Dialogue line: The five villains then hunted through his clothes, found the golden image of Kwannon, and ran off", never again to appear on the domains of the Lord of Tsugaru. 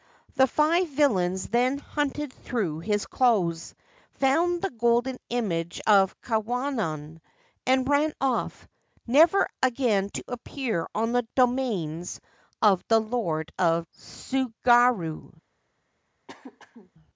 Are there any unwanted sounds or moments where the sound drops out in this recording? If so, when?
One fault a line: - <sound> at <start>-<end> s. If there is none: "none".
- throat clearing at 16.3-16.9 s